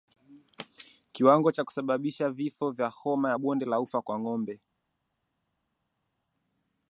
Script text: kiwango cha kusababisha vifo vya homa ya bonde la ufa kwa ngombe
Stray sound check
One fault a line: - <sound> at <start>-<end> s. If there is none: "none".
none